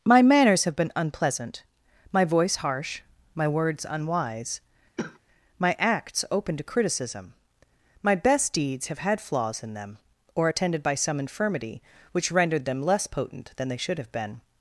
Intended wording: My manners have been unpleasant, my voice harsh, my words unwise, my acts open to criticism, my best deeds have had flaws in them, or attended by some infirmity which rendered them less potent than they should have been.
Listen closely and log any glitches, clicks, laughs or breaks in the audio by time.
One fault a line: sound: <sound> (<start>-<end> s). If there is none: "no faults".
sound: cough (5.0-5.2 s)